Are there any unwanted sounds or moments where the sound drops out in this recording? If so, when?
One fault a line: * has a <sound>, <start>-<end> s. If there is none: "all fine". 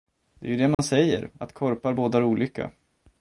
* has a dropout, 0.7-0.8 s